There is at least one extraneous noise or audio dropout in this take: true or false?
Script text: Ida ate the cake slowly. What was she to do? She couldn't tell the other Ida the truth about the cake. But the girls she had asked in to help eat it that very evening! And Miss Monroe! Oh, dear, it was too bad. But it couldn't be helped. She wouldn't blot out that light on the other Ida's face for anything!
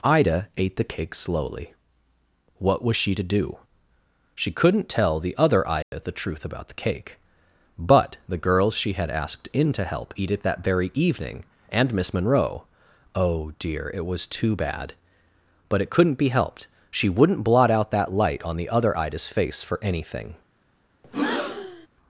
true